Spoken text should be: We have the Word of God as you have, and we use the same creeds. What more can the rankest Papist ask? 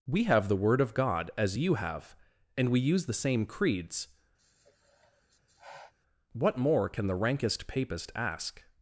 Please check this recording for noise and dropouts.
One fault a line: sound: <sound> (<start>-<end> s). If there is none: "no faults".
sound: sigh (4.4-5.9 s)